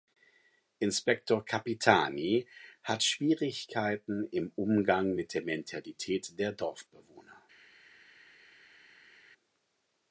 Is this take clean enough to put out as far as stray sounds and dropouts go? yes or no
yes